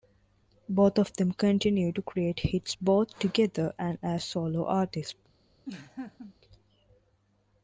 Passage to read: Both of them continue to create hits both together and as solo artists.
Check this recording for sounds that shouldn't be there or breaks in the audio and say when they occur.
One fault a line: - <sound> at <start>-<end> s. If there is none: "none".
- laugh at 5.6-6.3 s